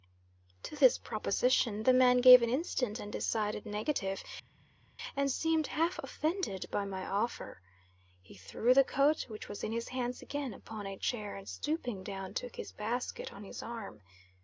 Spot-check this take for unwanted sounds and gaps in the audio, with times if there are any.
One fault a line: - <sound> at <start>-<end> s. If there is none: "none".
none